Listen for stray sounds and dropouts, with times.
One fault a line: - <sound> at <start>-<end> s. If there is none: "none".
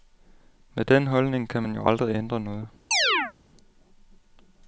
- chirp at 2.9-3.3 s